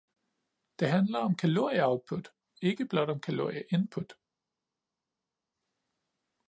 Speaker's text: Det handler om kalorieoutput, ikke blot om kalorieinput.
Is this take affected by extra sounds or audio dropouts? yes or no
no